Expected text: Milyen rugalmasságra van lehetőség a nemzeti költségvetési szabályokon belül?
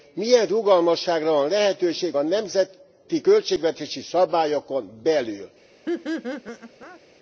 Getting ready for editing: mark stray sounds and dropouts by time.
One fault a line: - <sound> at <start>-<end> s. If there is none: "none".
- laugh at 5.9-7.0 s